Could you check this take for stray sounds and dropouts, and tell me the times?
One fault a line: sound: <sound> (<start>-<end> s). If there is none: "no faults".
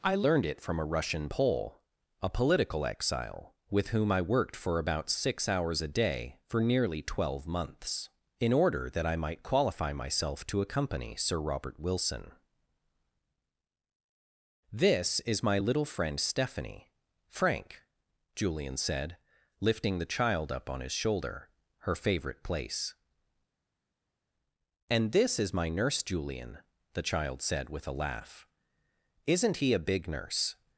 no faults